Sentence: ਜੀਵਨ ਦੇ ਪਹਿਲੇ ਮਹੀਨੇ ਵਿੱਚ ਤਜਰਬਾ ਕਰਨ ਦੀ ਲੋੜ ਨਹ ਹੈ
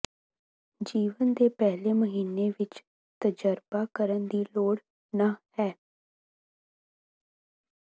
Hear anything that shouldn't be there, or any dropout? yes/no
no